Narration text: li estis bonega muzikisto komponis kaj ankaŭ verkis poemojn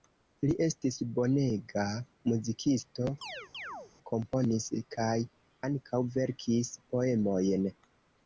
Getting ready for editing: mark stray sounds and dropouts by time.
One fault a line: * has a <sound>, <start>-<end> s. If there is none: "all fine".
* has a chirp, 3.2-3.9 s